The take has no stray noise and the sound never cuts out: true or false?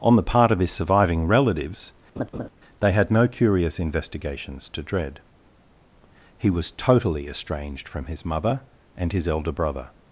false